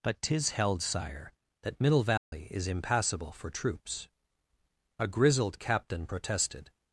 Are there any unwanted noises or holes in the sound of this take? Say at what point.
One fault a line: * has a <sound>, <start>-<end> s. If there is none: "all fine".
* has a dropout, 2.2-2.3 s